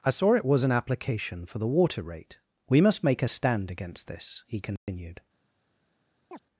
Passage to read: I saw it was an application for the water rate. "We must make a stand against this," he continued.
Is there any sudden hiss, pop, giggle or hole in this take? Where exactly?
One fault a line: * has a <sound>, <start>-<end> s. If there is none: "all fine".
* has a dropout, 4.8-4.9 s
* has a chirp, 6.3-6.4 s